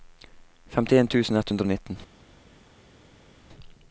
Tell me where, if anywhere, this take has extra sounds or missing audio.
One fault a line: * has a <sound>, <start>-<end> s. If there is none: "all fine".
all fine